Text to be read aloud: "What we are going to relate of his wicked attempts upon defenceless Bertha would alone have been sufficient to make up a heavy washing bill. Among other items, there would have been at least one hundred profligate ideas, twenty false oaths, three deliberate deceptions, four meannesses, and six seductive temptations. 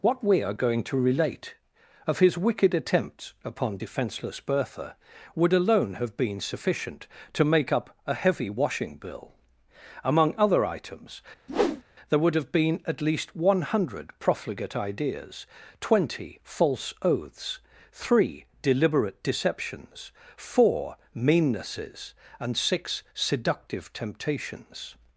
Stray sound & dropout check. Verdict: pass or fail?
fail